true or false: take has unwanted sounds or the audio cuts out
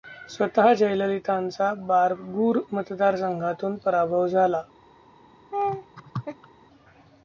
true